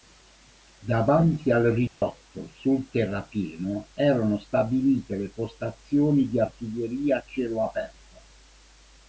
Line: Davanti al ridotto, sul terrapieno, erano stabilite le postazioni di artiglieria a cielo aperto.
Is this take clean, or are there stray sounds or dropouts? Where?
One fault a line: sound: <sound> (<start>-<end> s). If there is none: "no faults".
sound: dropout (1.9-2.0 s)